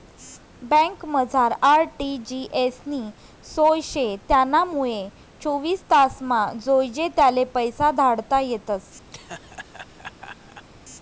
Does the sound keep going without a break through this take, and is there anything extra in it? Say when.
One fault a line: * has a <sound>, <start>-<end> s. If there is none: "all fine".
* has a laugh, 9.1-10.7 s